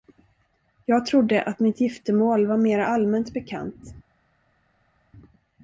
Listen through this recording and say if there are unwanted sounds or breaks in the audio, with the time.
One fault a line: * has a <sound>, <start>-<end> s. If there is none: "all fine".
all fine